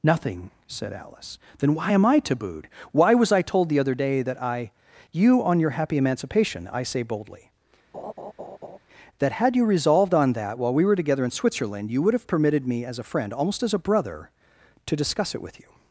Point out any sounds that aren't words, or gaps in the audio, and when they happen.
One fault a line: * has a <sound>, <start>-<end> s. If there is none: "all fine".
* has a laugh, 7.9-8.8 s